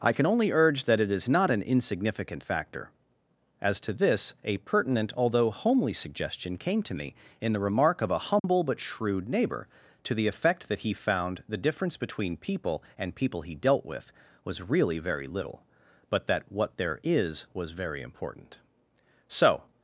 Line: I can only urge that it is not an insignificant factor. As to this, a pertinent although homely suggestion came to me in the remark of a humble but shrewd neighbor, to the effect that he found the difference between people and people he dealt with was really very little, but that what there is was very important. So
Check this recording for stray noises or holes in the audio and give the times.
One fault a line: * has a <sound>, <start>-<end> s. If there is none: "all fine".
* has a dropout, 8.4-8.4 s